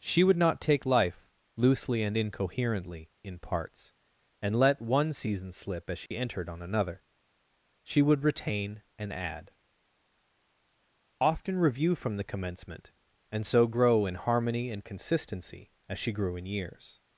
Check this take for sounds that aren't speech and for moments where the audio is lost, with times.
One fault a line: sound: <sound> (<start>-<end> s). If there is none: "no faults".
sound: dropout (6.1-6.1 s)